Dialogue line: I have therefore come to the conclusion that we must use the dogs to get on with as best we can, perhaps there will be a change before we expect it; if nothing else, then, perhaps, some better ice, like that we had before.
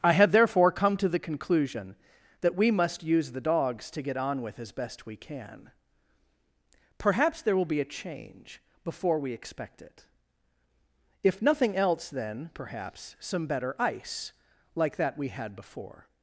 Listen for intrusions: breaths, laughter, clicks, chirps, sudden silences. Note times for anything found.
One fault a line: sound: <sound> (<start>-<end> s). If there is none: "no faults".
no faults